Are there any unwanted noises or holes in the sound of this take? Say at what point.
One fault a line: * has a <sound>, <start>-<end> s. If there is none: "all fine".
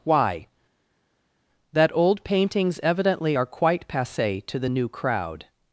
all fine